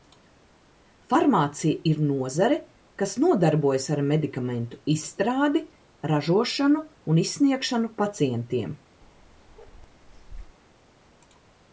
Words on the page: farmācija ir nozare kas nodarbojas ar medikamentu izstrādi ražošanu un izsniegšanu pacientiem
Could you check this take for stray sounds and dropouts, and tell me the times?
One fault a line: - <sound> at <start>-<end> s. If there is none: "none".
- bark at 9.0-10.6 s